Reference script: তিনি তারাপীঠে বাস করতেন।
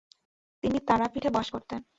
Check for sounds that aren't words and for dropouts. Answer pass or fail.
pass